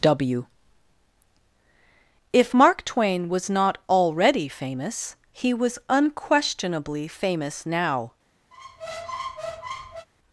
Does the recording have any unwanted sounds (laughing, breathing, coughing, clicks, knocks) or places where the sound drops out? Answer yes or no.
yes